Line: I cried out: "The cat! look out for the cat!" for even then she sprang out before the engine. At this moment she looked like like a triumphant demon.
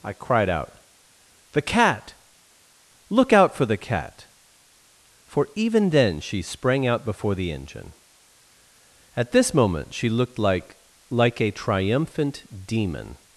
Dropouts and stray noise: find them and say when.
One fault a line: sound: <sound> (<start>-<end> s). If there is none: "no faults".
no faults